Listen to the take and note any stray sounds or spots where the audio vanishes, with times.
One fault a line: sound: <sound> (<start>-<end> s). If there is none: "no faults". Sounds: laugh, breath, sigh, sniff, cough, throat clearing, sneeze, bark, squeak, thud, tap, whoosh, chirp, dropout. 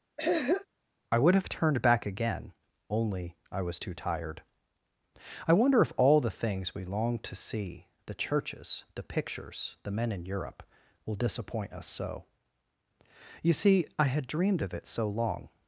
sound: throat clearing (0.2-0.7 s)